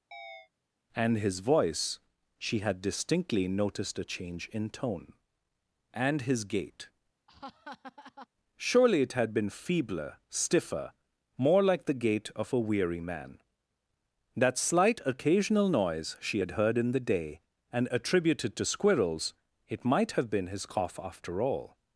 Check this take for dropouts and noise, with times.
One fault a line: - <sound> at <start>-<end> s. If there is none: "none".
- chirp at 0.1-0.5 s
- laugh at 7.3-8.3 s